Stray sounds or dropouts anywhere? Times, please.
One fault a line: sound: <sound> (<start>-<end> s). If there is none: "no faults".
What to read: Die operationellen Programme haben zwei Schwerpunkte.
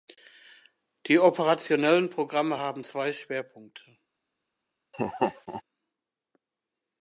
sound: laugh (4.9-5.6 s)